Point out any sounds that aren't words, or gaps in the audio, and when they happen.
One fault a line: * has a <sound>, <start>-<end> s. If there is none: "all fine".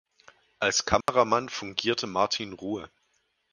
* has a dropout, 1.0-1.1 s